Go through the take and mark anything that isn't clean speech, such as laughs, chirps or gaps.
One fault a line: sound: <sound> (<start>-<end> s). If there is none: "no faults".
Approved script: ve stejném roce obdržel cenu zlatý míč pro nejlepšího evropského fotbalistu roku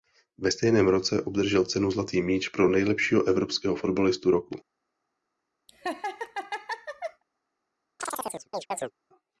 sound: laugh (5.7-7.2 s)
sound: chirp (8.0-8.9 s)